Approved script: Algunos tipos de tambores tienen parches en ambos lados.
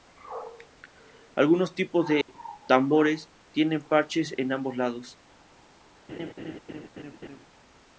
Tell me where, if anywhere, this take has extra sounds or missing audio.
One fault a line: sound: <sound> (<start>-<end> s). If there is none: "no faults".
sound: dropout (2.2-2.3 s)
sound: laugh (6.1-7.5 s)